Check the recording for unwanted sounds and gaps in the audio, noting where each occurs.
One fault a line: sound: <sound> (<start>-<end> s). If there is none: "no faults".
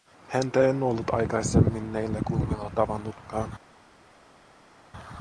no faults